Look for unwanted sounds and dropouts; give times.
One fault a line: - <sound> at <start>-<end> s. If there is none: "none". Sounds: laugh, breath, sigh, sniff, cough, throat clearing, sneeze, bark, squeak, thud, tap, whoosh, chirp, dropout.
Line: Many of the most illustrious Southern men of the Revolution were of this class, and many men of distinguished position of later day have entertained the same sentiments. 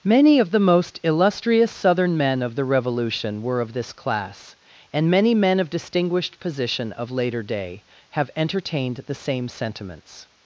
none